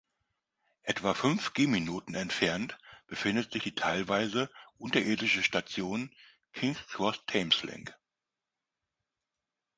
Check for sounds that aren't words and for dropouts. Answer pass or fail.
pass